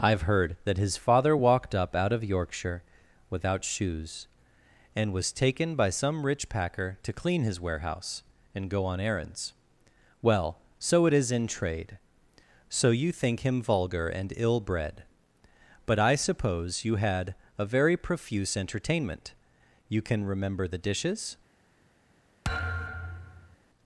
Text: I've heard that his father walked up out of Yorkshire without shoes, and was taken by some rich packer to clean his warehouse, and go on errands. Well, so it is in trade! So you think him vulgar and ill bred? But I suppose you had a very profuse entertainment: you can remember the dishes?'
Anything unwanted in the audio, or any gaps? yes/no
yes